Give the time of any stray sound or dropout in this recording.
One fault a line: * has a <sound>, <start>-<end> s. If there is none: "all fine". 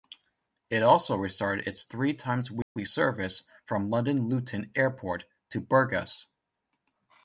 * has a dropout, 2.6-2.8 s